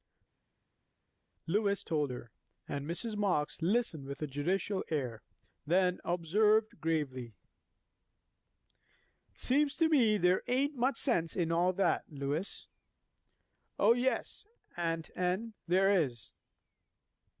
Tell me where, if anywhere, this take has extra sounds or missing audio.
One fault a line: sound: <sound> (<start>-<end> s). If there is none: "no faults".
no faults